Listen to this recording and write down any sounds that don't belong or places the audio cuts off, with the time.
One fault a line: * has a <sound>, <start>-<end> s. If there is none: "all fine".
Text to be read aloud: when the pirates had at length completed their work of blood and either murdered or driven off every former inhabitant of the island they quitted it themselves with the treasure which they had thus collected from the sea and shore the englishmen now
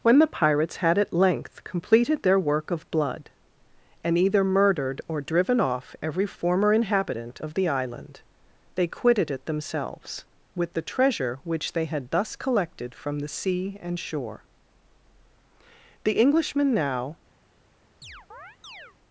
* has a chirp, 18.0-19.0 s